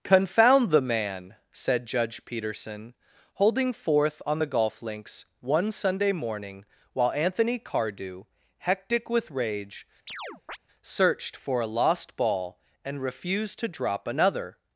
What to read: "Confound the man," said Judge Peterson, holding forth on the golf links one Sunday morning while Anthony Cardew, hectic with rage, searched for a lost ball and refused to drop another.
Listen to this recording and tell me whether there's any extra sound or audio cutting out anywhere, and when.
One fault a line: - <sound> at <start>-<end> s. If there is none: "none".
- chirp at 10.1-10.6 s